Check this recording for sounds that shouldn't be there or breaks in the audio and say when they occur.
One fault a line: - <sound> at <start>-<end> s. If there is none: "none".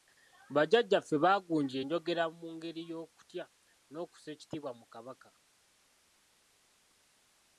none